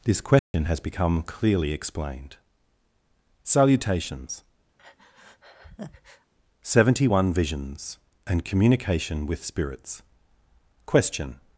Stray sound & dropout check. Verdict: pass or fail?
fail